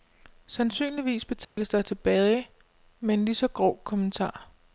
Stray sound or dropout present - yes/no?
yes